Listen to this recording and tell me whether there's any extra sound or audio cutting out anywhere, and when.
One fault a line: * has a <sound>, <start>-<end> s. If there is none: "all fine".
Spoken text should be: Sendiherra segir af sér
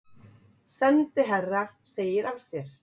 all fine